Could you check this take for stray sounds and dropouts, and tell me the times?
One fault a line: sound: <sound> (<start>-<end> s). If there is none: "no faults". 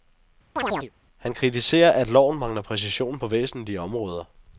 sound: chirp (0.6-0.9 s)